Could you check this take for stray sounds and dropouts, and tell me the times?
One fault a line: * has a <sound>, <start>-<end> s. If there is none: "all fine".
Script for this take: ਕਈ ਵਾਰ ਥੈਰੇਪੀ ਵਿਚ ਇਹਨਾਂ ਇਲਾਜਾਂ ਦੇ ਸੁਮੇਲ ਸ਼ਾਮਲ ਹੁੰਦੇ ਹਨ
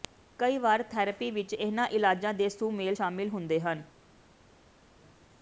all fine